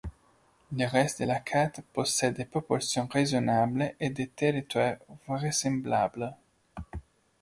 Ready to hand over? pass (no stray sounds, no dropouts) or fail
pass